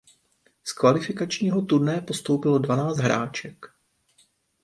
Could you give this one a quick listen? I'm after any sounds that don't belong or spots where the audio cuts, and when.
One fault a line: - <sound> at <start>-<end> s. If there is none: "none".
none